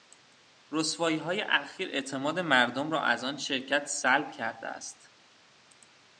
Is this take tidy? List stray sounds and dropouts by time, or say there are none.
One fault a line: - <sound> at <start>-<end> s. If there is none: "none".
none